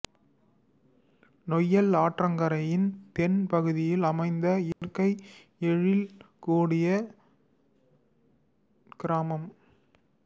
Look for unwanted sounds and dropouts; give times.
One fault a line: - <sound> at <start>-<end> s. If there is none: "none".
- dropout at 4.7-4.8 s